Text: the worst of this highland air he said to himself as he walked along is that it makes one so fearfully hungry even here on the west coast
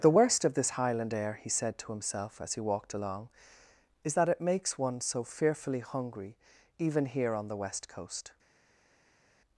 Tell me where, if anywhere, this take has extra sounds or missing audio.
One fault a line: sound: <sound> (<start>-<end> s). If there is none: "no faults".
no faults